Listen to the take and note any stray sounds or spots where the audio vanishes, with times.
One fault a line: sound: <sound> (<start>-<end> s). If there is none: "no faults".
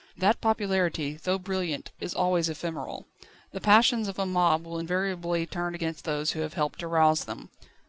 no faults